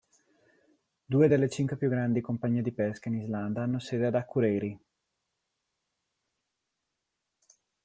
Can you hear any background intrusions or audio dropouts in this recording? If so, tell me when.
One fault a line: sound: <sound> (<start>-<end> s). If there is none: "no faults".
no faults